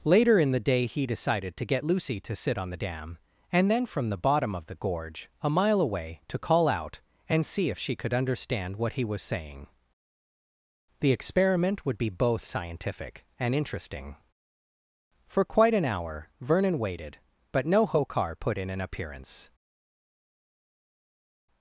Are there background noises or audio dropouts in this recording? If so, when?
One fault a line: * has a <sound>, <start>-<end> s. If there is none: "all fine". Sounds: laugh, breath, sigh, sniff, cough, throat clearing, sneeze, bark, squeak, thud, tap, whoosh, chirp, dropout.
all fine